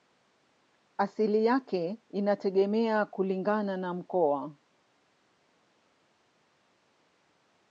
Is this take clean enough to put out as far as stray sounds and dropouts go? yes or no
yes